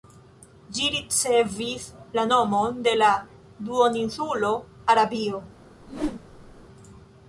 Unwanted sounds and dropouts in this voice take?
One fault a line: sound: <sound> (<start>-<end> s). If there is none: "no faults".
sound: whoosh (5.8-6.6 s)